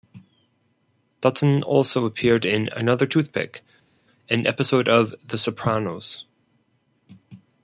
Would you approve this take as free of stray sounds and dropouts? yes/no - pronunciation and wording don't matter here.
yes